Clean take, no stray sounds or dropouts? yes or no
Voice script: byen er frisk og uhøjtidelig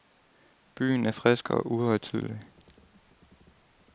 yes